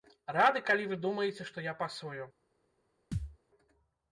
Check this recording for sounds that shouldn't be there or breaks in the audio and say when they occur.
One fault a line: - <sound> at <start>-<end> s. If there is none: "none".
- thud at 3.1-3.4 s